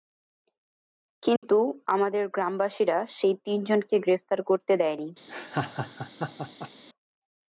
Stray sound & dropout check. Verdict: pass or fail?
fail